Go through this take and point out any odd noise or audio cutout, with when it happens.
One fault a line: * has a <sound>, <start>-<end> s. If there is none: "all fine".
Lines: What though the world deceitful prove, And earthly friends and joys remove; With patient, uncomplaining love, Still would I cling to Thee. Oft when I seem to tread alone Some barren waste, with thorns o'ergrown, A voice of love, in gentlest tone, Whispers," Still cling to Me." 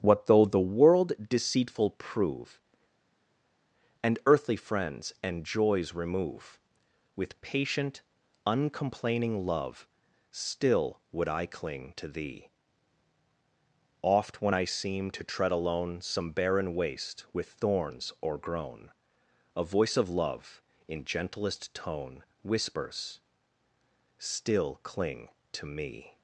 all fine